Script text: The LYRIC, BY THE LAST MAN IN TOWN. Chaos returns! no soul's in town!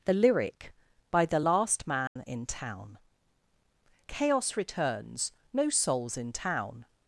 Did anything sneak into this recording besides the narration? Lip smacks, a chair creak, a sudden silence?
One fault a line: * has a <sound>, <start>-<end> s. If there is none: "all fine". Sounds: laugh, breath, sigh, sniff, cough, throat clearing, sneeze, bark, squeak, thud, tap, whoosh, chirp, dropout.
* has a dropout, 2.1-2.2 s